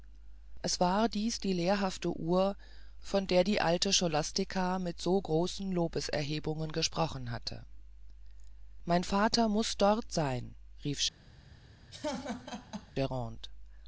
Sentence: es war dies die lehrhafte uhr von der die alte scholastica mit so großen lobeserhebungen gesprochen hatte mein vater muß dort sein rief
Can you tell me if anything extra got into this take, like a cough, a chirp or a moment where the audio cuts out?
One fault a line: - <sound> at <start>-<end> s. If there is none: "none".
- laugh at 11.9-12.9 s